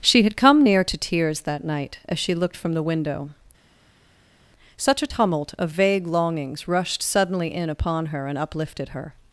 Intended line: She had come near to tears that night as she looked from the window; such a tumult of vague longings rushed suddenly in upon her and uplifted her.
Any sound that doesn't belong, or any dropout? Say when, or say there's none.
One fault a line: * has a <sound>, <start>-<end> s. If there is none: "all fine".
all fine